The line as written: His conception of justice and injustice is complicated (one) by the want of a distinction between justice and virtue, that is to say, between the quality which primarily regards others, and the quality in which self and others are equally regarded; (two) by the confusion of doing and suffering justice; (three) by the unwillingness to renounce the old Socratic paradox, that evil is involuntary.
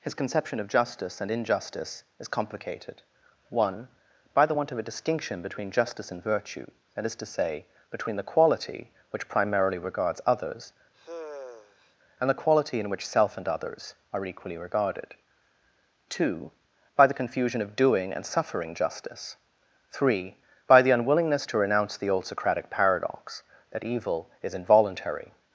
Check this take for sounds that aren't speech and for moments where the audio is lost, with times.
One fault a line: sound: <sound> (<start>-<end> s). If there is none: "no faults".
sound: sigh (10.9-12.0 s)